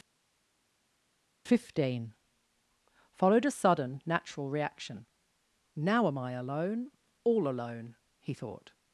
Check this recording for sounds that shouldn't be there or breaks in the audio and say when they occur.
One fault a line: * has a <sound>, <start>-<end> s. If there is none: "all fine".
all fine